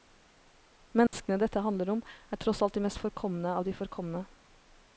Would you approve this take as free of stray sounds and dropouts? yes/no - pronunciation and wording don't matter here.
no